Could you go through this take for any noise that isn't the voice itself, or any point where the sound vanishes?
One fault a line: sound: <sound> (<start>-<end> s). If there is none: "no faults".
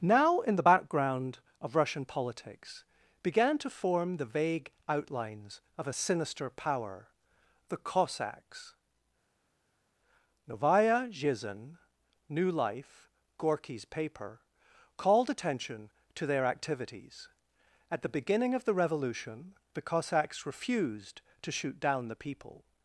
no faults